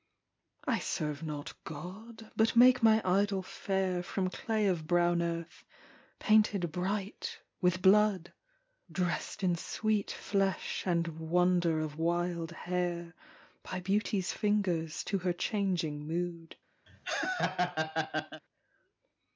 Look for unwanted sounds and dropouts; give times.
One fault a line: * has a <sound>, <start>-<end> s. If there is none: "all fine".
* has a laugh, 16.9-18.4 s